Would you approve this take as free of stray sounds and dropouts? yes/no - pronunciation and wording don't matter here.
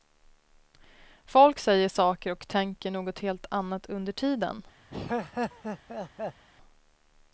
no